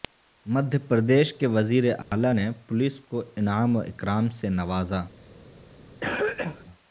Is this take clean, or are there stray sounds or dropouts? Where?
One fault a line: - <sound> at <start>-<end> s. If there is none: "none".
- dropout at 2.0-2.1 s
- cough at 6.0-6.6 s